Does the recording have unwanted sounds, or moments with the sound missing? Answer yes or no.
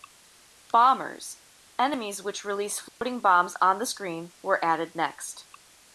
yes